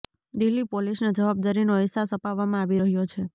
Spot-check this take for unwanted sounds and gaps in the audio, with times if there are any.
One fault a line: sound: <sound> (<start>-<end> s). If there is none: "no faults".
no faults